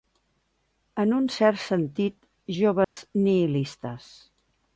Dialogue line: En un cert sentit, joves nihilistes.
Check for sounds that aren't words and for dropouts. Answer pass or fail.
fail